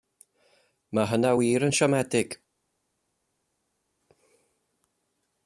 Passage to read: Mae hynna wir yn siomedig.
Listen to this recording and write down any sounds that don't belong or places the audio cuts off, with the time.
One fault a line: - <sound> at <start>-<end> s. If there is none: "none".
none